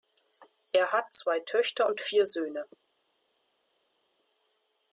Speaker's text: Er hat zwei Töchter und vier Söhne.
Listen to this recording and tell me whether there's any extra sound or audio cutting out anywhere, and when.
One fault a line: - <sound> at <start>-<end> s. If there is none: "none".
none